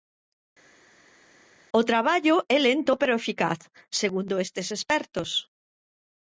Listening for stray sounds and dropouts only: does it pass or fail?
pass